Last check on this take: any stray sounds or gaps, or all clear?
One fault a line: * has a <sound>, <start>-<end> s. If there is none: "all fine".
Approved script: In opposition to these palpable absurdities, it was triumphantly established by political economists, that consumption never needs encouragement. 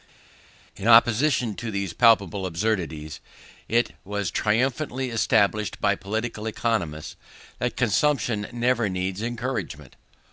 all fine